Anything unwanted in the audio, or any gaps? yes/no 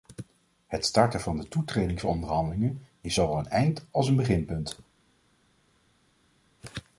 no